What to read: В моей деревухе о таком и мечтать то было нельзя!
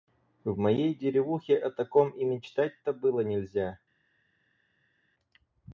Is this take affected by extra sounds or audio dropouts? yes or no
no